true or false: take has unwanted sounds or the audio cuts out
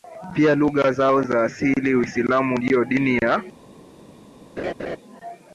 true